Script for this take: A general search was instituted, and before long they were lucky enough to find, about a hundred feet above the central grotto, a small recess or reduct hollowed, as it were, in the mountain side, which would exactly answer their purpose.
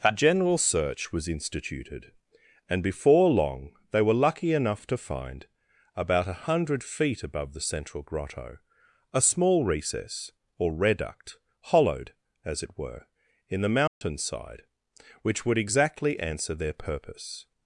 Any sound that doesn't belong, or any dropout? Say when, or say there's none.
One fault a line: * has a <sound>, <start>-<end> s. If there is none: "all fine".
* has a dropout, 13.9-14.0 s